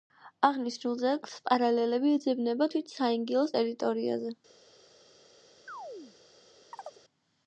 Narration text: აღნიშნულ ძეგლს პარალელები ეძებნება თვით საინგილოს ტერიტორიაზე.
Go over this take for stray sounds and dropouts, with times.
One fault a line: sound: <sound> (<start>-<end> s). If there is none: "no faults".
sound: chirp (5.7-6.2 s)
sound: chirp (6.7-7.0 s)